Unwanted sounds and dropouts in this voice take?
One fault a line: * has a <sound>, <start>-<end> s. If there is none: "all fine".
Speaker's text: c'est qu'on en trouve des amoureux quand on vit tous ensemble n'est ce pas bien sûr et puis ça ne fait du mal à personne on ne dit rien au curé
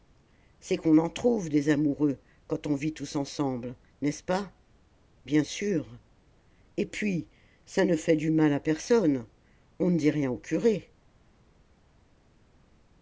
all fine